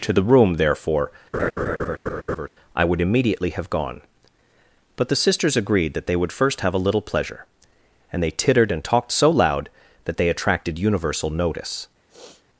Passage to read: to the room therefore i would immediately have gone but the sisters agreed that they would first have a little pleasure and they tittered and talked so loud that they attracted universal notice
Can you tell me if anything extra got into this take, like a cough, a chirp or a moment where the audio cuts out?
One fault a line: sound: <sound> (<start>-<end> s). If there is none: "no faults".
sound: laugh (1.3-2.5 s)
sound: sniff (12.1-12.5 s)